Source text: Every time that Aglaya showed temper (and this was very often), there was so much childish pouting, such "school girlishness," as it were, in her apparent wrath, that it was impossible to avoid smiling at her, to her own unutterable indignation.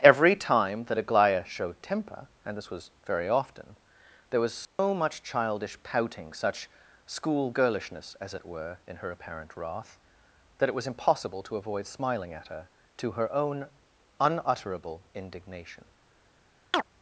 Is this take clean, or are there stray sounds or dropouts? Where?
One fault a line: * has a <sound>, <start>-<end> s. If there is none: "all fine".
* has a dropout, 4.6-4.8 s
* has a chirp, 16.7-16.8 s